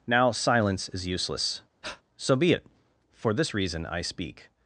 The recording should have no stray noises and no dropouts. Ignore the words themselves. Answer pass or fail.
fail